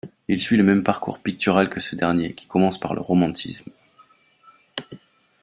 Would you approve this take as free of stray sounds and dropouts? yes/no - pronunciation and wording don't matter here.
yes